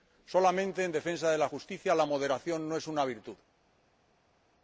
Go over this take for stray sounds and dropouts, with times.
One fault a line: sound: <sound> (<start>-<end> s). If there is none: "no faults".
no faults